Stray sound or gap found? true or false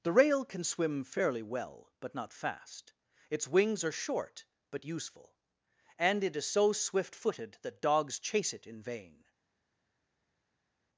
false